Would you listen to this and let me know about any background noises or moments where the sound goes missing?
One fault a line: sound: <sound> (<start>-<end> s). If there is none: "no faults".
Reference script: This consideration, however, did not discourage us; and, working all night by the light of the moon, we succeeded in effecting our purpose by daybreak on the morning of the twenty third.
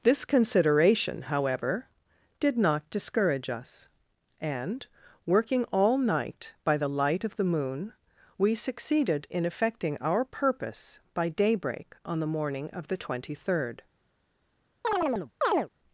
sound: chirp (14.8-15.7 s)